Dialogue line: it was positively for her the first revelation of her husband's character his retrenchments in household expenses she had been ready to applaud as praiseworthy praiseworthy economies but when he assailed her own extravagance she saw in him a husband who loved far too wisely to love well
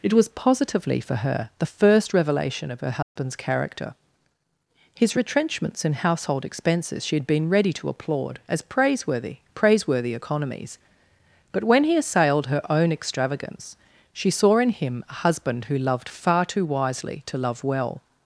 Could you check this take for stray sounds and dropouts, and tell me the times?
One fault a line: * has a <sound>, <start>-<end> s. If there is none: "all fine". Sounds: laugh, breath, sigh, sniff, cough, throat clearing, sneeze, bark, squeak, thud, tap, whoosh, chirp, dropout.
* has a dropout, 3.0-3.2 s